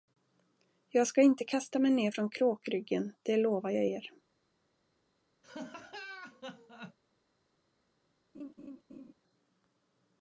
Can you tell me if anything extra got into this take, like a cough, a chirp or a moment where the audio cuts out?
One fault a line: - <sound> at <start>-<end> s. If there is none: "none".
- laugh at 5.4-7.0 s
- laugh at 8.3-9.1 s